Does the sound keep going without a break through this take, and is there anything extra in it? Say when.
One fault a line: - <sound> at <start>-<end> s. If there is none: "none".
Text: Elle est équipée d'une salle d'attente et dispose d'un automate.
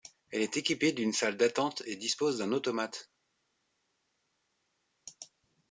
none